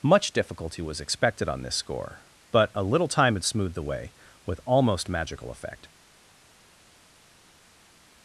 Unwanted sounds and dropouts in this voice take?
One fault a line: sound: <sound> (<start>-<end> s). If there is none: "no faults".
no faults